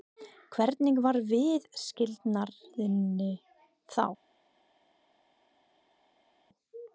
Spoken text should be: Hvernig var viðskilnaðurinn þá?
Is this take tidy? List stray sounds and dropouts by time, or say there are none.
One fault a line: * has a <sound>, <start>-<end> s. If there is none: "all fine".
all fine